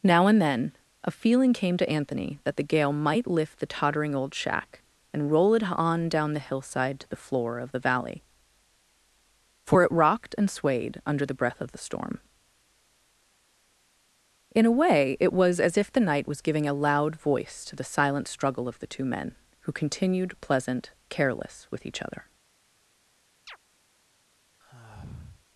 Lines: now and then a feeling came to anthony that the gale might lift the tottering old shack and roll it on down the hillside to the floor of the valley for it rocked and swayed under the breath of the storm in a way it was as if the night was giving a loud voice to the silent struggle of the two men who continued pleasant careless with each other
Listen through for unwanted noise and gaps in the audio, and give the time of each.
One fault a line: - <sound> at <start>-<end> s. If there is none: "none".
- chirp at 23.5-23.6 s
- sigh at 24.6-25.5 s